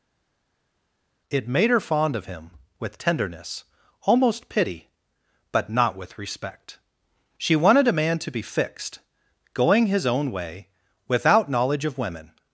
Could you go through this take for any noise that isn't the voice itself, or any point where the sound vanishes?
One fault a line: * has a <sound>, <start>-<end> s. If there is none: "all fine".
all fine